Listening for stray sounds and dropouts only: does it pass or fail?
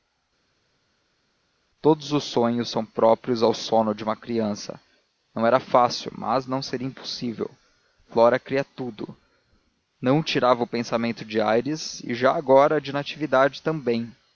pass